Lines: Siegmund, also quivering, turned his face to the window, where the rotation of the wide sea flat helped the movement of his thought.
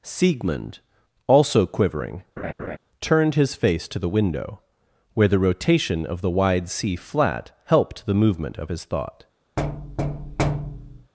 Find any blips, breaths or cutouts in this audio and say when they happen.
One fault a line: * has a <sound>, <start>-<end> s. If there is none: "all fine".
* has a laugh, 2.4-2.8 s
* has a thud, 9.6-11.1 s